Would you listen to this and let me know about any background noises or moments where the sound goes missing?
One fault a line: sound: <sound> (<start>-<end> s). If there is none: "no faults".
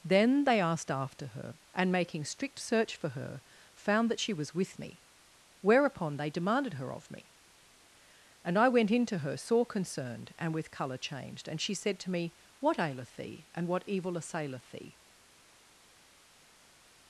no faults